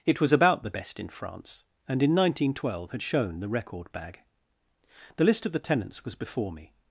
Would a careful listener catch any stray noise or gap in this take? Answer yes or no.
no